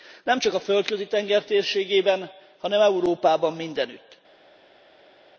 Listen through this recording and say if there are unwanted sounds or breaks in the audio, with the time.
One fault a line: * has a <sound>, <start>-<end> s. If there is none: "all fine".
all fine